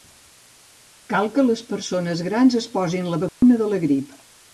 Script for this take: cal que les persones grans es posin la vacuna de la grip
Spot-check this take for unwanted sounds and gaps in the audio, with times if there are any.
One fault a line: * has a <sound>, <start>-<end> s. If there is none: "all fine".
* has a dropout, 3.3-3.4 s